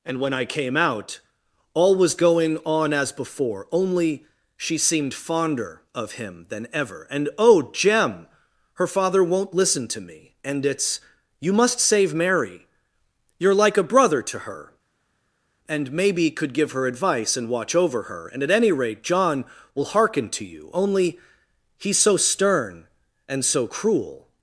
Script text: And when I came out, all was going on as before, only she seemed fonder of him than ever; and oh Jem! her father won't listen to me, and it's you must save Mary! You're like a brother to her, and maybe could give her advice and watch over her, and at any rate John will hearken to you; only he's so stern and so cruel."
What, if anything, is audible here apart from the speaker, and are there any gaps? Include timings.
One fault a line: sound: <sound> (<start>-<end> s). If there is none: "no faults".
no faults